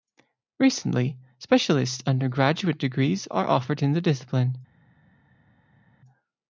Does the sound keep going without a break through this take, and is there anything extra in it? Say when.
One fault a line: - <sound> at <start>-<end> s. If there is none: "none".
none